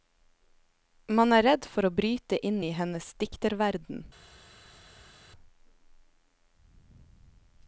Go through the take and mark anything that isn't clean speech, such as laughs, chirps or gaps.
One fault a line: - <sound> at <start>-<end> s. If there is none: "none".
none